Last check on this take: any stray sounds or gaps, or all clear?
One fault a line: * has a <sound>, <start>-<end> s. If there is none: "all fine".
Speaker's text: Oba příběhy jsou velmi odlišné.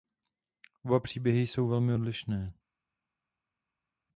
all fine